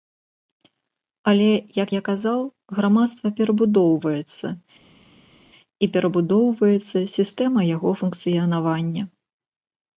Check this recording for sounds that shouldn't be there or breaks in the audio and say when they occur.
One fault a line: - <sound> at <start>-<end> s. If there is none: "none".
none